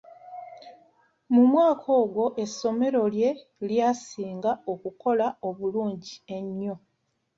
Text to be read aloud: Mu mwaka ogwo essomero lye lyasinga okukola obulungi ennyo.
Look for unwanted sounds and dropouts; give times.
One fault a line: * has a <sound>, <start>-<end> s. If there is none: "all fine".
all fine